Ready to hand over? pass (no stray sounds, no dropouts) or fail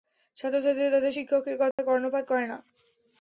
fail